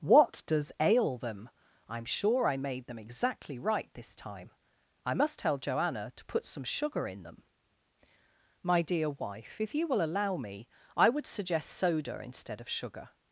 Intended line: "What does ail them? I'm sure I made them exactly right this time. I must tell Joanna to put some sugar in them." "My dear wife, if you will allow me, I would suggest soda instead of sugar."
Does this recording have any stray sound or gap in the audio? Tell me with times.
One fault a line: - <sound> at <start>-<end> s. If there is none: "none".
none